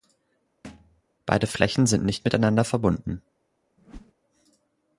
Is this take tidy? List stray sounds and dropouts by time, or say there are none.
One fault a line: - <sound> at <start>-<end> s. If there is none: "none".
- thud at 0.6-1.0 s
- whoosh at 3.8-4.1 s